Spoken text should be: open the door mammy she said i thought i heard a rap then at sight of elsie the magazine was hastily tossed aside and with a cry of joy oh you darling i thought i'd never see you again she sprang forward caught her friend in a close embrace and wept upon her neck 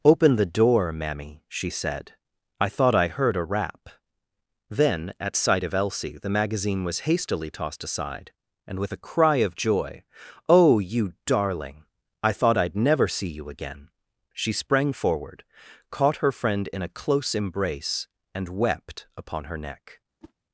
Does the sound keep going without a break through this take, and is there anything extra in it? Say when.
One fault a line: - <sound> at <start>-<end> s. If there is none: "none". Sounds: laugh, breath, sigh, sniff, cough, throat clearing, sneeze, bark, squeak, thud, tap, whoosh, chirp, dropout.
- whoosh at 20.2-20.3 s